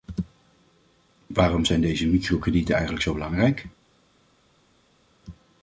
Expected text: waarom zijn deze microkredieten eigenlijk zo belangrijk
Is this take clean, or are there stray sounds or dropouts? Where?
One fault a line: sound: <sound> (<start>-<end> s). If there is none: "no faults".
no faults